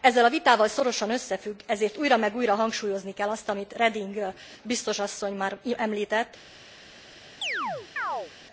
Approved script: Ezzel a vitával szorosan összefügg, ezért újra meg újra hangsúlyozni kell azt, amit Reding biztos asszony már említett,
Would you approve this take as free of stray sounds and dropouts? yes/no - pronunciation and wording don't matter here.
no